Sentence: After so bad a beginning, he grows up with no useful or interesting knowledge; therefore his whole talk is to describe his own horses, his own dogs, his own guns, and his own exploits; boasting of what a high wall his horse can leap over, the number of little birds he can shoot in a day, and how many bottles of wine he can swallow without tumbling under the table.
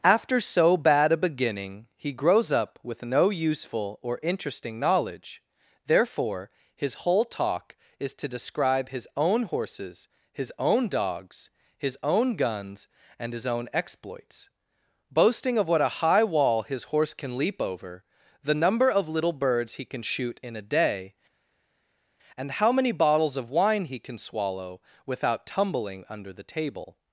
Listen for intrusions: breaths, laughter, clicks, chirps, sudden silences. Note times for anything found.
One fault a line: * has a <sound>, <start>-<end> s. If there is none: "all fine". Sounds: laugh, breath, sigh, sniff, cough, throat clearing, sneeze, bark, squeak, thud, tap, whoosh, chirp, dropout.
all fine